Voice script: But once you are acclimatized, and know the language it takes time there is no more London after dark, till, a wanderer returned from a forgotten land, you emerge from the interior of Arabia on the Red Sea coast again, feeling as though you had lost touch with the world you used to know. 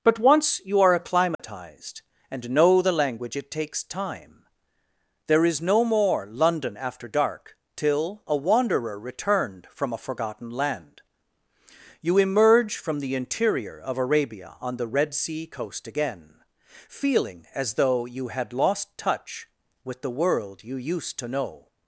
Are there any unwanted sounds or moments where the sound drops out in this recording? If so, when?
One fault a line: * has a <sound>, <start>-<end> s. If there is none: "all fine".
* has a dropout, 1.3-1.4 s